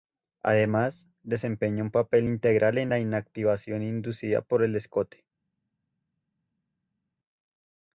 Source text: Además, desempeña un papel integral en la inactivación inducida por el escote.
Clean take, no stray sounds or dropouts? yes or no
yes